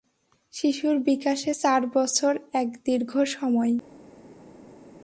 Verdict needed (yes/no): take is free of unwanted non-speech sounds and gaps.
yes